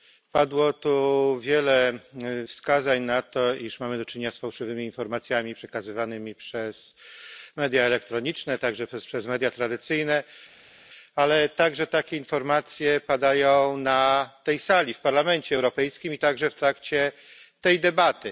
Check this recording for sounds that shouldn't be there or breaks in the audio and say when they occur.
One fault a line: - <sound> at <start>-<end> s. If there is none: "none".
none